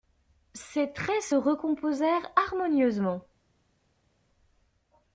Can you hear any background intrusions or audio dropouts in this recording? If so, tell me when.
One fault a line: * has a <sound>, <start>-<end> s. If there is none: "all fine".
all fine